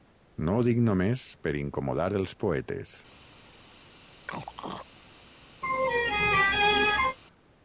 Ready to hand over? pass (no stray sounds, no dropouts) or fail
fail